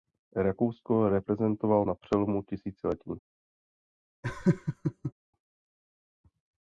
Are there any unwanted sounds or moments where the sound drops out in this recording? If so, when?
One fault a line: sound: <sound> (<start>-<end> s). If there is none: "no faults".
sound: laugh (4.2-5.1 s)